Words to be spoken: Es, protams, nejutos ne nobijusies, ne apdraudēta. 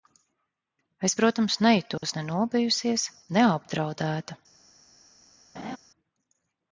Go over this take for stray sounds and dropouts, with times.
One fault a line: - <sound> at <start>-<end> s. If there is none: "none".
- dropout at 2.0-2.0 s
- laugh at 5.6-5.8 s